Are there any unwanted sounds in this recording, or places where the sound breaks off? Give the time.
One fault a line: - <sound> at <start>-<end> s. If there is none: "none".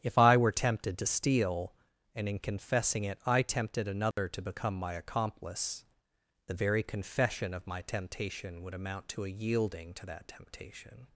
- dropout at 4.1-4.2 s